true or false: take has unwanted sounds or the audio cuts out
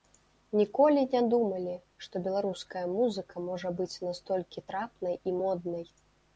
false